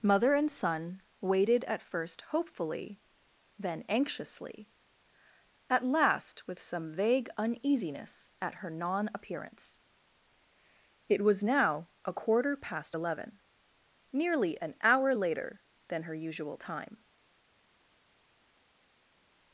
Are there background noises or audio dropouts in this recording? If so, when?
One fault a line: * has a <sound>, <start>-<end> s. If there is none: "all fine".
all fine